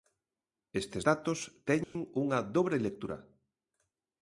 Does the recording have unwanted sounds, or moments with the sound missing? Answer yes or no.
yes